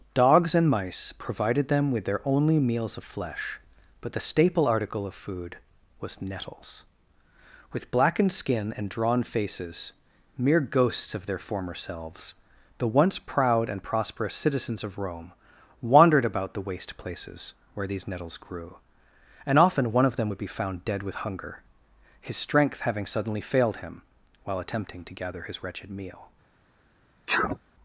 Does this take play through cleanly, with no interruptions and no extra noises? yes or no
no